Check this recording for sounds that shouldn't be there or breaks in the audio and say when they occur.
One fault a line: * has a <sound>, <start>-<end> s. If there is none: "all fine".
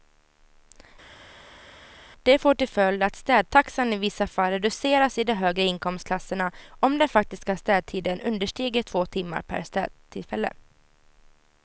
all fine